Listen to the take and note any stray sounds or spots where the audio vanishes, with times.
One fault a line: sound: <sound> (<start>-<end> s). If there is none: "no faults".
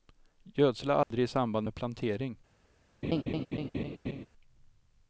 sound: dropout (1.0-1.1 s)
sound: laugh (3.0-4.3 s)